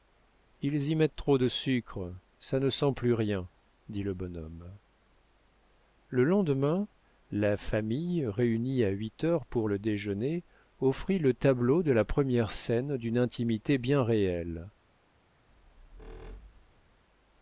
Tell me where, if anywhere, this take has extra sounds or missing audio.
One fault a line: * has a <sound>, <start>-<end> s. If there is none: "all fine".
* has a squeak, 15.5-17.0 s